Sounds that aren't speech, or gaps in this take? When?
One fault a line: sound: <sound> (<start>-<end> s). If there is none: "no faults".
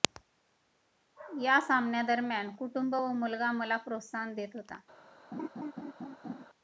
sound: laugh (5.3-6.5 s)